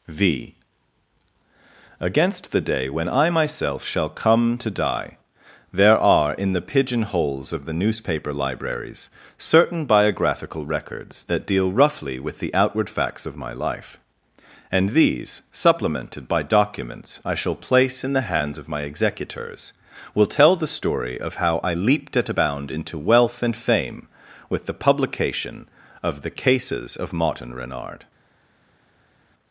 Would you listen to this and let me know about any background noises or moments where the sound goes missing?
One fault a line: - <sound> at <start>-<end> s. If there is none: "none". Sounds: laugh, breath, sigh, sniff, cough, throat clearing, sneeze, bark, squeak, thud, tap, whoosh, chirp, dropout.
none